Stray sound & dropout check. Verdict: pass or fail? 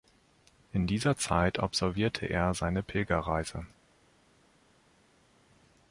pass